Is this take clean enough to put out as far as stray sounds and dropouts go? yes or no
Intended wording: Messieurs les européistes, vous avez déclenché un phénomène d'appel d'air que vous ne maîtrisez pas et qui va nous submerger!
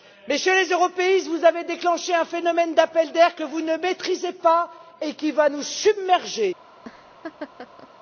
no